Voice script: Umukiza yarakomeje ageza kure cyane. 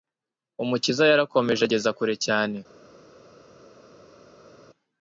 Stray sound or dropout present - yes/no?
no